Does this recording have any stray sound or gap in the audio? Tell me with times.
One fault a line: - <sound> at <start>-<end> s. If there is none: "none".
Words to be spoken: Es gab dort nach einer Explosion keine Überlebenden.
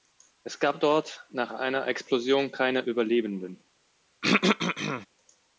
- throat clearing at 4.2-5.1 s